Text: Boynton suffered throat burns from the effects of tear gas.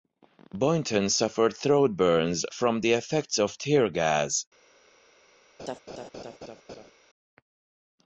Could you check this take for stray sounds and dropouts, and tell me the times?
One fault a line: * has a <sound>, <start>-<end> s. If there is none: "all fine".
* has a laugh, 5.6-6.9 s